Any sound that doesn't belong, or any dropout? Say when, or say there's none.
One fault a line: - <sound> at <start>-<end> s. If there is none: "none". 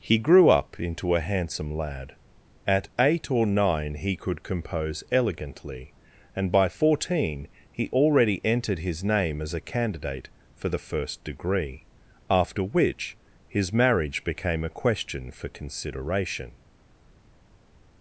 none